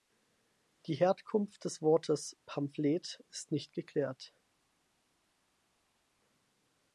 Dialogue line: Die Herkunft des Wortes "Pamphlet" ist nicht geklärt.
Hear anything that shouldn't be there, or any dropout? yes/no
no